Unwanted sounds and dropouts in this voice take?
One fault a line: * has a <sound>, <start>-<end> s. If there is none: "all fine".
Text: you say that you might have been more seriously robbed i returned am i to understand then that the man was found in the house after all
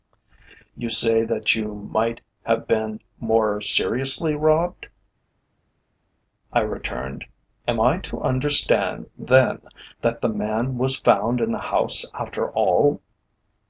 all fine